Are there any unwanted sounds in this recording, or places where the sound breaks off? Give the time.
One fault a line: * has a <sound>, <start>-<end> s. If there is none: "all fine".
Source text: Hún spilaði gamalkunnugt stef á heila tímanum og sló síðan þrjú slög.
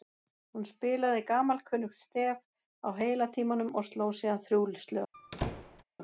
* has a squeak, 5.1-5.8 s